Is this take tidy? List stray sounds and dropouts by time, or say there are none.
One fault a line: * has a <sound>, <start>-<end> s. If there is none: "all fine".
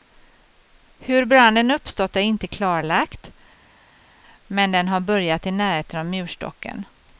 all fine